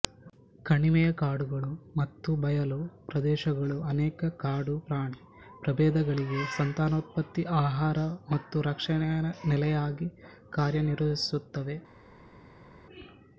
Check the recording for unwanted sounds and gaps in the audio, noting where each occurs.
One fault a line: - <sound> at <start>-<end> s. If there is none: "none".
none